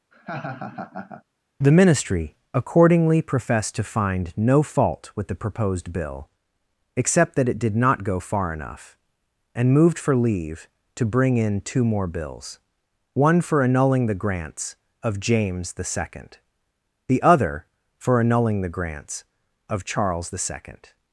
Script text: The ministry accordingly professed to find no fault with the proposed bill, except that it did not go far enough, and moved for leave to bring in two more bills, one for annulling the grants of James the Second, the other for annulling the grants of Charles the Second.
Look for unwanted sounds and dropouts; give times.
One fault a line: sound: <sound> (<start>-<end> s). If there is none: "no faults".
sound: laugh (0.1-1.2 s)